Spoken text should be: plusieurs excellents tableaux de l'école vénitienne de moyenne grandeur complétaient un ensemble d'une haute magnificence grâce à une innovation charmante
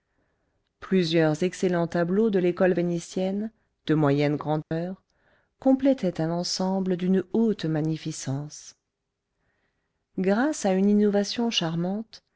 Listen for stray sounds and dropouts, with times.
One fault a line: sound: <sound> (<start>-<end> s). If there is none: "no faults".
sound: dropout (4.6-4.7 s)